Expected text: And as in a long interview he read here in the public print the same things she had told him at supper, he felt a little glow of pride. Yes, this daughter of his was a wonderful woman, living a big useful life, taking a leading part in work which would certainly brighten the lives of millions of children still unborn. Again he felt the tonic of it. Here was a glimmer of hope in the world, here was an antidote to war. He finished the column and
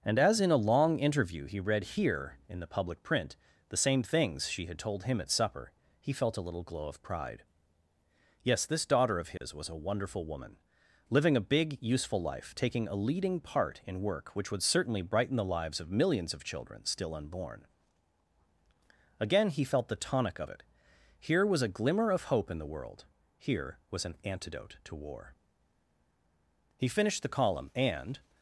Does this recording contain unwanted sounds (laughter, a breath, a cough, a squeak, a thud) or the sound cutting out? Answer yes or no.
yes